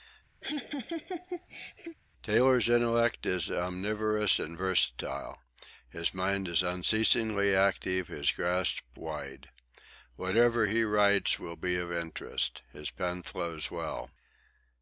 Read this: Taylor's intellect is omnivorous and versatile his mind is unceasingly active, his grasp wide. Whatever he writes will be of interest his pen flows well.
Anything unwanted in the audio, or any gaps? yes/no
yes